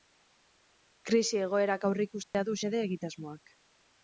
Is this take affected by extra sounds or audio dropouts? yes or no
yes